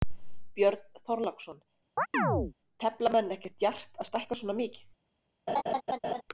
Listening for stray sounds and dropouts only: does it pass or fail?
fail